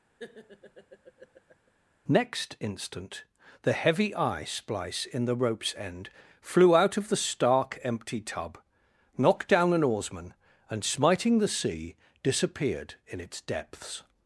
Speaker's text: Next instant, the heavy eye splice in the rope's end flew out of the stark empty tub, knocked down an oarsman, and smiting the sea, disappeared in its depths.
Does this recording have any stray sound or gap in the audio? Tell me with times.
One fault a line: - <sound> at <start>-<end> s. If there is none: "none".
- laugh at 0.2-1.7 s